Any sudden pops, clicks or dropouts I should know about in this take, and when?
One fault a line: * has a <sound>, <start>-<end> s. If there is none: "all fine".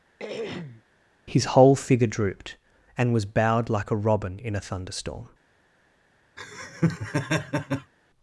* has a throat clearing, 0.2-0.8 s
* has a laugh, 6.4-7.9 s